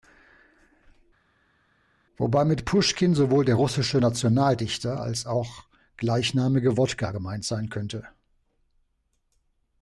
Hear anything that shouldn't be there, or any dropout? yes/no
no